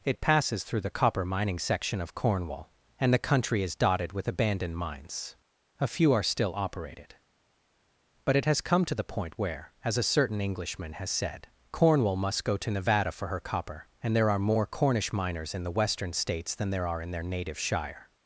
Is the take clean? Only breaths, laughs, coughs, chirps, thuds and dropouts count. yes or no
yes